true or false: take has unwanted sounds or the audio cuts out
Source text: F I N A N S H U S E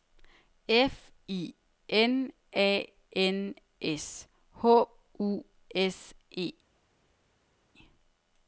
false